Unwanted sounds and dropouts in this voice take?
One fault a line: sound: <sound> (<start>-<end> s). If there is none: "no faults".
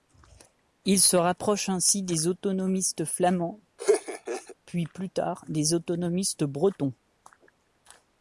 sound: laugh (3.8-4.6 s)